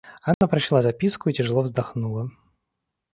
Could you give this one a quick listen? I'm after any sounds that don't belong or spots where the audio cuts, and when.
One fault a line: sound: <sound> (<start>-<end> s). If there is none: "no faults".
sound: dropout (0.3-0.4 s)